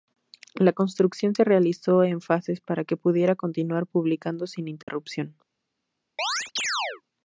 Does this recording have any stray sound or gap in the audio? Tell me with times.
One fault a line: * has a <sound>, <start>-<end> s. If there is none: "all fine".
* has a dropout, 4.8-4.9 s
* has a chirp, 6.2-7.0 s